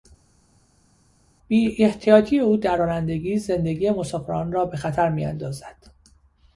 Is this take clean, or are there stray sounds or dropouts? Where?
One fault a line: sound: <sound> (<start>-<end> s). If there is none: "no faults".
no faults